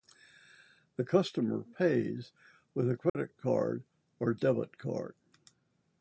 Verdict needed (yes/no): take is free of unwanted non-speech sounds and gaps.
no